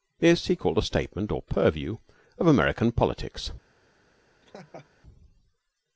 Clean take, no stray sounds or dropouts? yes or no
no